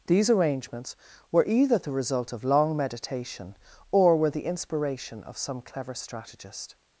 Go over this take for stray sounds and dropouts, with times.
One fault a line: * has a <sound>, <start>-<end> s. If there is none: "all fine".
all fine